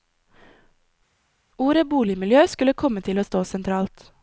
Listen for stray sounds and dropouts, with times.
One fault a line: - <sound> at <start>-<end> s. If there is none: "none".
none